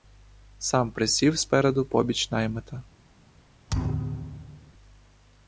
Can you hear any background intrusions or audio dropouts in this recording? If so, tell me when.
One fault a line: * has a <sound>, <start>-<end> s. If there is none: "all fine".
* has a thud, 3.7-4.7 s